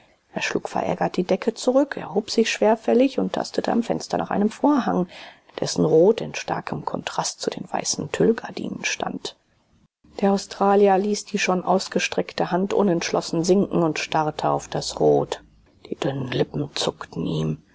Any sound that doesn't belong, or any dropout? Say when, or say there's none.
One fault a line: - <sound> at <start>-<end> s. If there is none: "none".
none